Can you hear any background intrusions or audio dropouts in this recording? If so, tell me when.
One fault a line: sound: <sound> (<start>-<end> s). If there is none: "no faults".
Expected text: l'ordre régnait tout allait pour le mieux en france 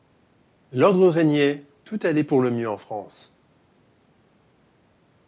no faults